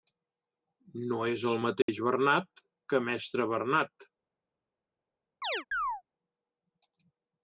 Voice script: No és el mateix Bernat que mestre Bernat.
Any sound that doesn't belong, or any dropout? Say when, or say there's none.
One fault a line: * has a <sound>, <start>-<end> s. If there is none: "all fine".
* has a dropout, 1.8-1.9 s
* has a chirp, 5.4-6.0 s